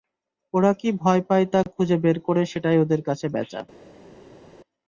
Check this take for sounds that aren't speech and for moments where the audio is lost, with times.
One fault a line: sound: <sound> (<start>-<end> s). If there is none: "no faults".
no faults